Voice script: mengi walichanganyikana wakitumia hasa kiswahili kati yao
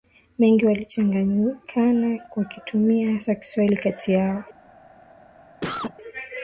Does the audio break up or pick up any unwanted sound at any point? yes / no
yes